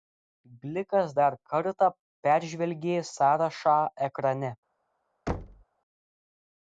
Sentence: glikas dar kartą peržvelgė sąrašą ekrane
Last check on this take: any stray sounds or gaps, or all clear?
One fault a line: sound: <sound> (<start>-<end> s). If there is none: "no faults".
sound: thud (5.3-5.6 s)